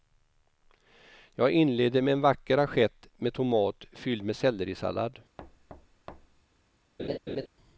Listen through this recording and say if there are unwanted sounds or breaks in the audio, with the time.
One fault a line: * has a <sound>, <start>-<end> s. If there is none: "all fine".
* has a thud, 5.4-6.4 s
* has a laugh, 7.0-7.5 s